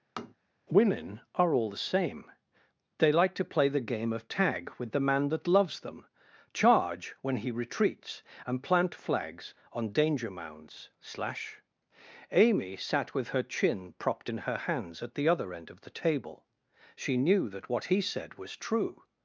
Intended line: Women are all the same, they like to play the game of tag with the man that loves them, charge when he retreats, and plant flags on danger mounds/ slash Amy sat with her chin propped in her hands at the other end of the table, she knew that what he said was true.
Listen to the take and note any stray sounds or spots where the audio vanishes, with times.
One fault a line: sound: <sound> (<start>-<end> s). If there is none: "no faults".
sound: tap (0.2-0.4 s)